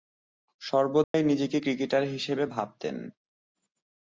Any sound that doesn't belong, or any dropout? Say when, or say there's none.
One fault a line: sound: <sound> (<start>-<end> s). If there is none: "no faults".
sound: dropout (1.0-1.1 s)